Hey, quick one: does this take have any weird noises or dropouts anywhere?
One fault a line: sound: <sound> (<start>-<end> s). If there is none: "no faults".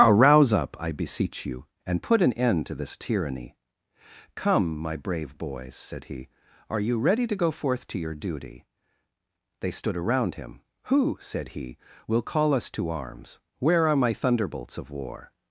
no faults